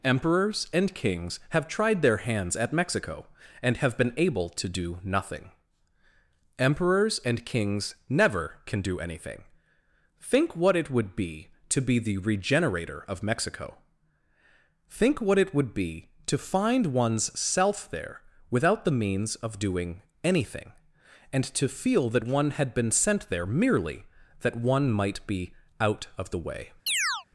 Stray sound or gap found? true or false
true